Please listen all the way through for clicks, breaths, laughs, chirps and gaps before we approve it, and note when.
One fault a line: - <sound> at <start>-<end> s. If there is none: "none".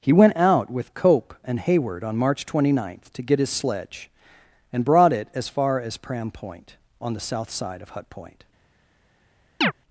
- chirp at 9.6-9.7 s